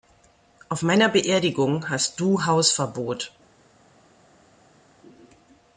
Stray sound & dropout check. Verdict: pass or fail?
pass